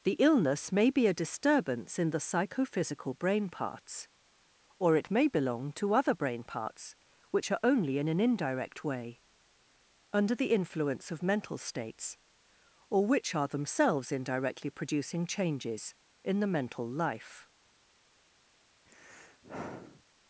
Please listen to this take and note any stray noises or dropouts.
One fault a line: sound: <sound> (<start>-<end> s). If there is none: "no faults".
sound: sigh (18.9-20.0 s)